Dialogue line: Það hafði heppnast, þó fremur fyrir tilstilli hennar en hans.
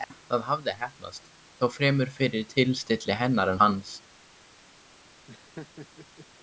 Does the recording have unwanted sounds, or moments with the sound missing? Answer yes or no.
yes